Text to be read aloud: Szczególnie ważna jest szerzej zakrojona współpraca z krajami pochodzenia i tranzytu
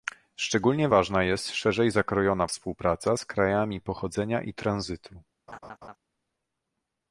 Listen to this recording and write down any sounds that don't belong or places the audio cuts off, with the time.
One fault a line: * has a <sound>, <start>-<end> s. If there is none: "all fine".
* has a laugh, 5.5-6.0 s